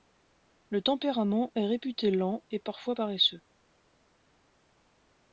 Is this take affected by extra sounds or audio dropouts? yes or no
no